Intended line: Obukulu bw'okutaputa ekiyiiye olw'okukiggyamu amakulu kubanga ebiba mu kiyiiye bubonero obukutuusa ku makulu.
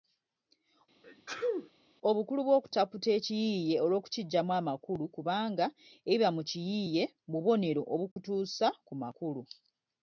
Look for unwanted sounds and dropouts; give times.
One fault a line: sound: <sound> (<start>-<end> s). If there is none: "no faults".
sound: sneeze (1.0-1.7 s)
sound: dropout (8.1-8.2 s)